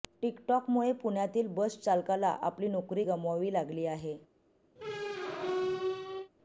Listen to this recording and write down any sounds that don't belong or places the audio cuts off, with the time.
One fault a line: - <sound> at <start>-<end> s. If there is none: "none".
- squeak at 4.8-6.3 s